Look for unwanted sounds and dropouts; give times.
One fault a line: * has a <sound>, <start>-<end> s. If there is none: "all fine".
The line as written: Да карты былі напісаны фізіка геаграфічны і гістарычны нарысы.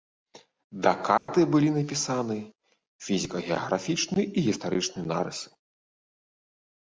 * has a dropout, 1.2-1.3 s